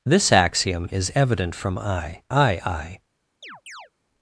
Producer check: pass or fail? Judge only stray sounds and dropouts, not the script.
fail